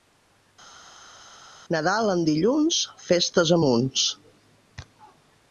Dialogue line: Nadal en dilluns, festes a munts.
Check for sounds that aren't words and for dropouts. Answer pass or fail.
pass